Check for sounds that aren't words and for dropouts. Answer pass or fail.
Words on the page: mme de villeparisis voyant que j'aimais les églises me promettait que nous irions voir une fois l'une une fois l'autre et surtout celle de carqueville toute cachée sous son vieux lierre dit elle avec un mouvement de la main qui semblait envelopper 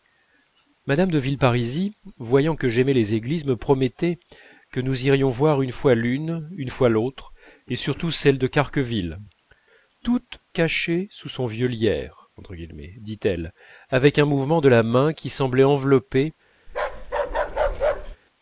fail